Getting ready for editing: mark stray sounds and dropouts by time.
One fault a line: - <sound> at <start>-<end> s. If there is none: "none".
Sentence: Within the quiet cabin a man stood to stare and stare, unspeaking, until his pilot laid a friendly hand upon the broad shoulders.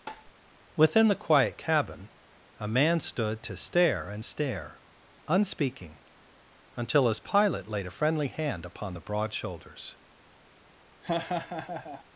- tap at 0.1-0.3 s
- laugh at 11.0-12.0 s